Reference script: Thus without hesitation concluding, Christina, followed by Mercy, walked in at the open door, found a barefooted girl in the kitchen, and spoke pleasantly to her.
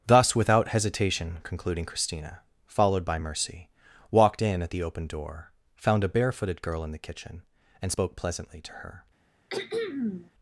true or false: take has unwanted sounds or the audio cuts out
true